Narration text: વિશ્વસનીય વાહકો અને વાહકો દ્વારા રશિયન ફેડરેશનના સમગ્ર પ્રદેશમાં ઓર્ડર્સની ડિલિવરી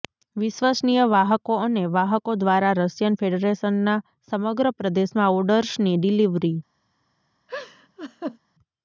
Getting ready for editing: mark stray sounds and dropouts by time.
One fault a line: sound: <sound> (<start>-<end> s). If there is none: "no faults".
sound: laugh (7.5-8.4 s)